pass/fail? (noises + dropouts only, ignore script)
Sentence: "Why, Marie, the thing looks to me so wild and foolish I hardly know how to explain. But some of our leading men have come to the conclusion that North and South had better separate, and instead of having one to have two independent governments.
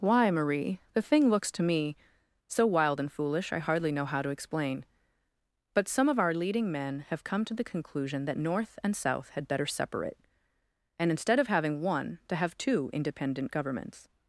pass